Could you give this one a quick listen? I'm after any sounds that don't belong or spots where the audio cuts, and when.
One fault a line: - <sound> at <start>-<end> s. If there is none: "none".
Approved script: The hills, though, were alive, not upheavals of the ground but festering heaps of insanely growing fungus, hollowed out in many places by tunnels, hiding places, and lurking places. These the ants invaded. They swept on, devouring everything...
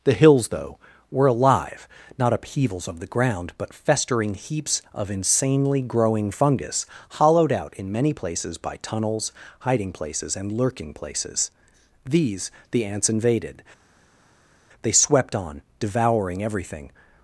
none